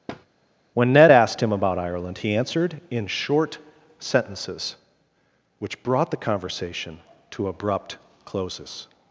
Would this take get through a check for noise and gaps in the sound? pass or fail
fail